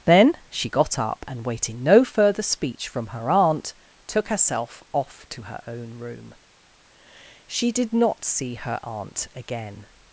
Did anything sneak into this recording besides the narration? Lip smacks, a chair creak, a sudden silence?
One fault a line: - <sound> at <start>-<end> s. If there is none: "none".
none